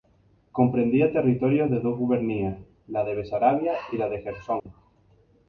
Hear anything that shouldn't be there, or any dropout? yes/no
yes